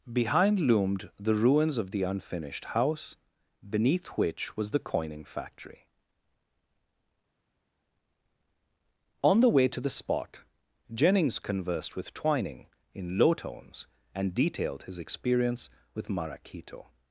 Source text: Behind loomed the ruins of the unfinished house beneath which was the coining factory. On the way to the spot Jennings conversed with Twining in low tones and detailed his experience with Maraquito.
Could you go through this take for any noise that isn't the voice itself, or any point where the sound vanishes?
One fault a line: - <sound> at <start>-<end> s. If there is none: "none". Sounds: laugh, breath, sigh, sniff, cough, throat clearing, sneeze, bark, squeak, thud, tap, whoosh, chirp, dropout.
none